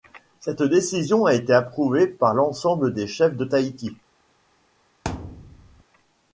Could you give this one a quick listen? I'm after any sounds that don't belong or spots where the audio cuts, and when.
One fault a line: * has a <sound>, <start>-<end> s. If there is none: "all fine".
* has a thud, 5.0-5.8 s